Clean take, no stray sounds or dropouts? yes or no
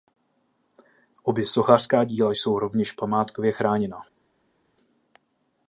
yes